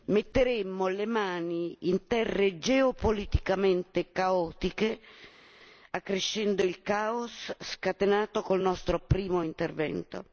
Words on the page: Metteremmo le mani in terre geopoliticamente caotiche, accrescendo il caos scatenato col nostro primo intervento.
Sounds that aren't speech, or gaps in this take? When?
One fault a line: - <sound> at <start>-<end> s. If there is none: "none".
none